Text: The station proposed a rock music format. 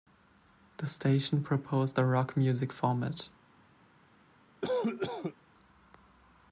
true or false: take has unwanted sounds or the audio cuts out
true